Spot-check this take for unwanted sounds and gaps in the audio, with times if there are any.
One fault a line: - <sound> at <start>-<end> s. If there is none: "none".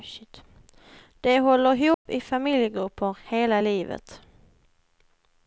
- dropout at 1.9-2.1 s